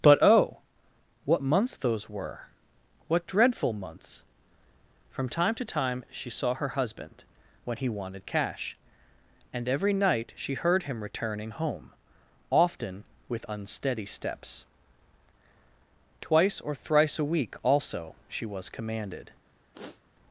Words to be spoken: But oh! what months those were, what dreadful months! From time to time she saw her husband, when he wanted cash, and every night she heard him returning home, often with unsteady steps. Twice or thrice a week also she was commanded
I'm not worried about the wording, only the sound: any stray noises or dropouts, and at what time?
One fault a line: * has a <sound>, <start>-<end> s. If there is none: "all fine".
* has a sniff, 19.7-20.0 s